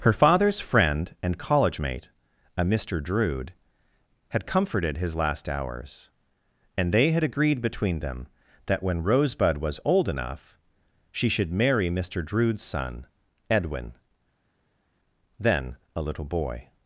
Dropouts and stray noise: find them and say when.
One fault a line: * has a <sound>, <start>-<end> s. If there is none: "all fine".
all fine